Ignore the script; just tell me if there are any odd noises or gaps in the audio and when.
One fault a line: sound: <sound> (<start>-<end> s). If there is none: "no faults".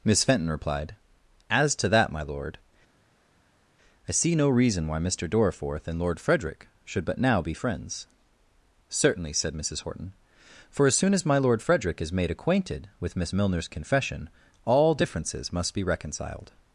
no faults